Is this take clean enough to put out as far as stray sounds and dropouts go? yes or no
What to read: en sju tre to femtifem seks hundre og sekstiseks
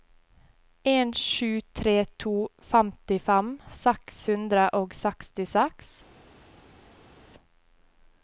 yes